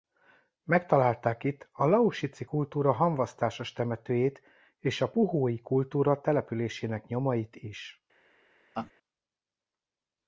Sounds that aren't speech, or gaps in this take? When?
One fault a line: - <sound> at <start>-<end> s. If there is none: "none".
- laugh at 8.7-8.9 s